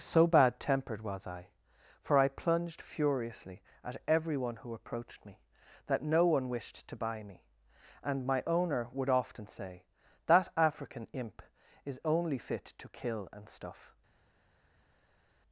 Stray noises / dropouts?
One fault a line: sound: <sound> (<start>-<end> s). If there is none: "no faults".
no faults